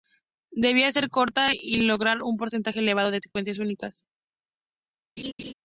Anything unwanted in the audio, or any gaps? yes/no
yes